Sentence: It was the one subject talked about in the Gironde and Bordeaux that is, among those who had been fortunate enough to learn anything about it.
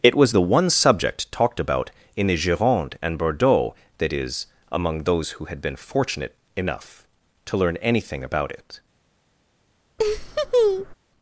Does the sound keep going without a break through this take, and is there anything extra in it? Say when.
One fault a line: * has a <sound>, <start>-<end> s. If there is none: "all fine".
* has a laugh, 10.0-10.9 s